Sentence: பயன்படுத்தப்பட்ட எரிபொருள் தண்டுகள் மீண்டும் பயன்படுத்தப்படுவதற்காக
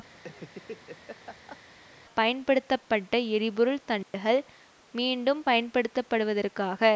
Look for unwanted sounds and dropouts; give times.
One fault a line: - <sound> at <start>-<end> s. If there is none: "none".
- laugh at 0.1-1.6 s
- dropout at 4.0-4.1 s